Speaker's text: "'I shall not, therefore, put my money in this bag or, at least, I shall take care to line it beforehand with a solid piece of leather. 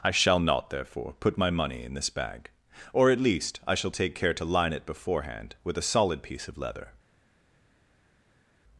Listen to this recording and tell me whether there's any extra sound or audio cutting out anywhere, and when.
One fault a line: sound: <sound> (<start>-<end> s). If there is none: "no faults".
no faults